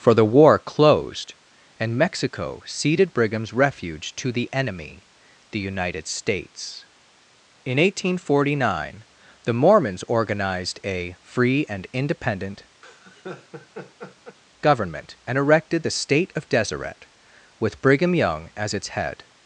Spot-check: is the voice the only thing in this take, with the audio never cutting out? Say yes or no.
no